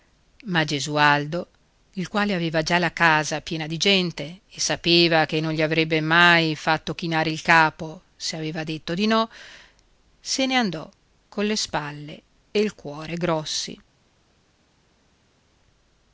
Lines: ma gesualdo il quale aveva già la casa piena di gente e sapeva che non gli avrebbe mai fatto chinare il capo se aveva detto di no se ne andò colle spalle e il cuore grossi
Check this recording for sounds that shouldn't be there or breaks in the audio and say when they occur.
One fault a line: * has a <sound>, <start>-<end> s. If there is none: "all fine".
all fine